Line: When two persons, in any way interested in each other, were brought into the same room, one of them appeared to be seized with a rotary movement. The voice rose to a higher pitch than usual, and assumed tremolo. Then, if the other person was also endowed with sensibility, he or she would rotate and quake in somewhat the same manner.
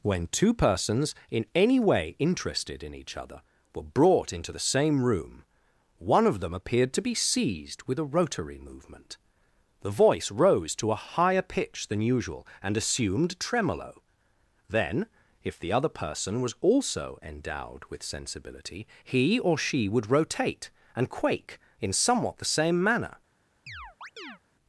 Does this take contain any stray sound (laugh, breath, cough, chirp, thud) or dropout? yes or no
yes